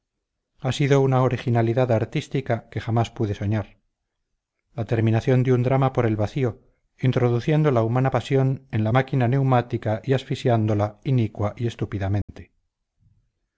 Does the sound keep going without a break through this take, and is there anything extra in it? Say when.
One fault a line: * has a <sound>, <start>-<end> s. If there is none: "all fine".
* has a dropout, 12.2-12.3 s